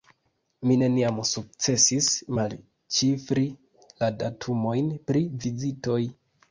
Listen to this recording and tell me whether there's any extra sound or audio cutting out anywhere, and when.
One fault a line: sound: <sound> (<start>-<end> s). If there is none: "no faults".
no faults